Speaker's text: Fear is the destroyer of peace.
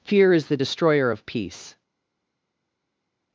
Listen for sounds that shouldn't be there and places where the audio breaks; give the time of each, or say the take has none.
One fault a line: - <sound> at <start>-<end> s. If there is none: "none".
none